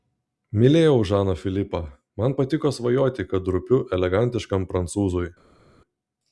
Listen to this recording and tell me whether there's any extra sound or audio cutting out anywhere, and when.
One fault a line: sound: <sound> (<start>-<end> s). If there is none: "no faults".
no faults